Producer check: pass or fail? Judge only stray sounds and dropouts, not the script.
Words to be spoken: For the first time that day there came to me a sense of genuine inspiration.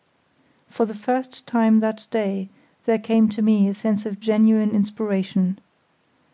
pass